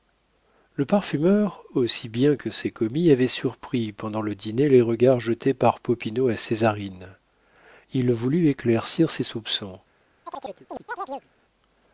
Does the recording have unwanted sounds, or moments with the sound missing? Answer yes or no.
yes